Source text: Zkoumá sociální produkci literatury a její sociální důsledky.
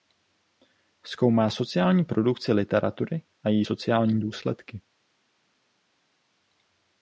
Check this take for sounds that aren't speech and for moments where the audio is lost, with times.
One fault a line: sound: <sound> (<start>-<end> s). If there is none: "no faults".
no faults